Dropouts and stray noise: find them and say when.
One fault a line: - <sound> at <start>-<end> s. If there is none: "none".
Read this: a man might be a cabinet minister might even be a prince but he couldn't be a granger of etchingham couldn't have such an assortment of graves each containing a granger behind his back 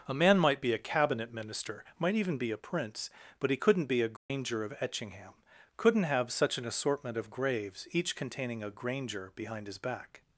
- dropout at 4.2-4.3 s